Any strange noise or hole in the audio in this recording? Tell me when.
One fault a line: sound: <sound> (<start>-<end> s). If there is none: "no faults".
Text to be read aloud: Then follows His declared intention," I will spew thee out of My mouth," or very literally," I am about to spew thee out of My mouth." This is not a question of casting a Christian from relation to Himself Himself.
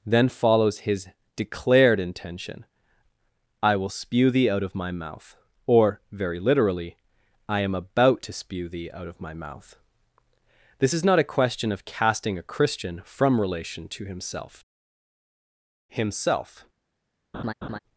sound: laugh (17.3-17.8 s)